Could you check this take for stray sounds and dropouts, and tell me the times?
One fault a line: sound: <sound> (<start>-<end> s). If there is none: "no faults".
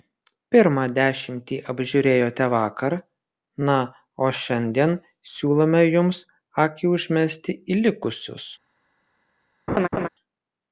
sound: laugh (9.7-10.1 s)